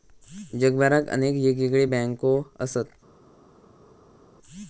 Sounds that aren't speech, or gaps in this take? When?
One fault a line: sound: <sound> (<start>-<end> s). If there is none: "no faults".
no faults